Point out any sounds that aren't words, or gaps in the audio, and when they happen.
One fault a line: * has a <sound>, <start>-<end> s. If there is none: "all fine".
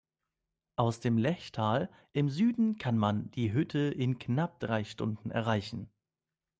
all fine